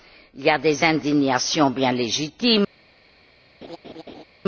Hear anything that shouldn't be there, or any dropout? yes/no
yes